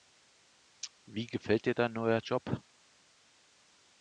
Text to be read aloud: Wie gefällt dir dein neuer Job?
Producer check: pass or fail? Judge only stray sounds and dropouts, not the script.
pass